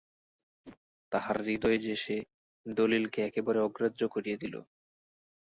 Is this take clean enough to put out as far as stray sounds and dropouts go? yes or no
no